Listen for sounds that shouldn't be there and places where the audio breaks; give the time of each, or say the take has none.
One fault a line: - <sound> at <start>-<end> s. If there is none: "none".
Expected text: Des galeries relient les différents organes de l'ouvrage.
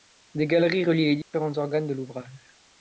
- dropout at 1.2-1.3 s